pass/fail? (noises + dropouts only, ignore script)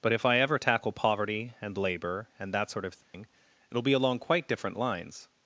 fail